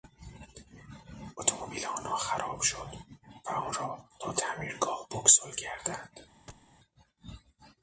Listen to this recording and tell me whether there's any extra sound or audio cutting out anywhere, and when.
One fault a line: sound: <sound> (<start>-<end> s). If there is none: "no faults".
sound: thud (6.5-6.7 s)